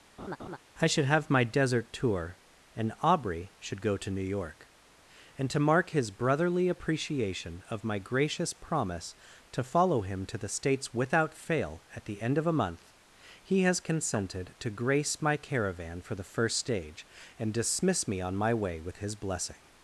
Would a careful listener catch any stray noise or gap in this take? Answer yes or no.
yes